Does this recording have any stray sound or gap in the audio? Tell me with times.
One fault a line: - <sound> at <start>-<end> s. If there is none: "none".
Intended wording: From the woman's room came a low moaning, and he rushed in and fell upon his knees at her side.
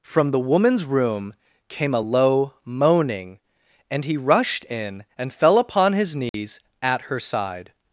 - dropout at 6.3-6.3 s